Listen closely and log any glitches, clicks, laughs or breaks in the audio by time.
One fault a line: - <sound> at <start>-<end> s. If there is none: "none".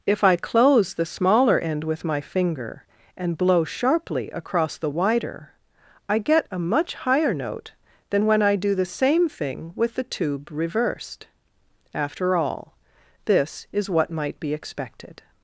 none